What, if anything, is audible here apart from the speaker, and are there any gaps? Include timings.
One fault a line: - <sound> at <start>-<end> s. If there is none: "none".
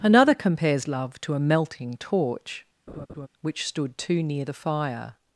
- laugh at 2.9-3.3 s